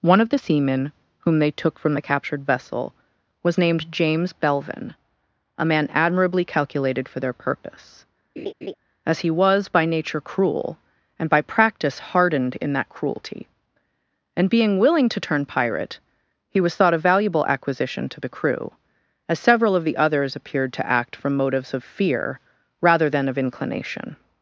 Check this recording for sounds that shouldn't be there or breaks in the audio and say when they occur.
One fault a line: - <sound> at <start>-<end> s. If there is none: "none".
- laugh at 8.4-8.7 s